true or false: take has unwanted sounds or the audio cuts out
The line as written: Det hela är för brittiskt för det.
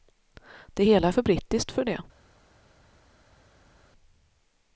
false